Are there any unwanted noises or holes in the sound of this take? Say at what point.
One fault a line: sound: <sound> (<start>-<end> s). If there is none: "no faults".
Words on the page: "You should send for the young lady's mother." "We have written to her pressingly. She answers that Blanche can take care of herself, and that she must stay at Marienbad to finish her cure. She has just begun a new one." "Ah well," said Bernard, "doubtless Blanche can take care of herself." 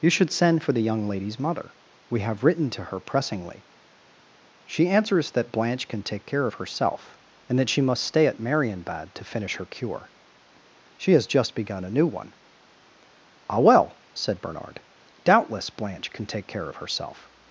no faults